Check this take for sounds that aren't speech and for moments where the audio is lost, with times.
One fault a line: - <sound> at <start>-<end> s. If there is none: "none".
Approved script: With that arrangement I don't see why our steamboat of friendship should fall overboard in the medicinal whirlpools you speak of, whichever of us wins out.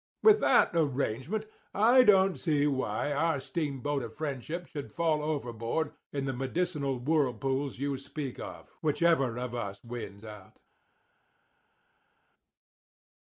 none